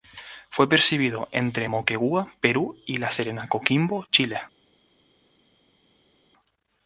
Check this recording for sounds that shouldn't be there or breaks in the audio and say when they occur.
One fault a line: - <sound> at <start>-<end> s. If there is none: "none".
none